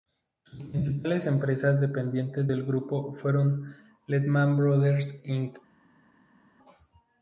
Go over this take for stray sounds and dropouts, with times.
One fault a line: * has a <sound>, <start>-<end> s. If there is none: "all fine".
all fine